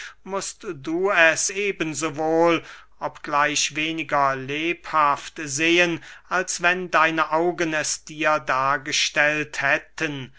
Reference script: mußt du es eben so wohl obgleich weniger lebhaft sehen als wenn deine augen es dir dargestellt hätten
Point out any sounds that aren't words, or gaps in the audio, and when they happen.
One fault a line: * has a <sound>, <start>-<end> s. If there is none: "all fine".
all fine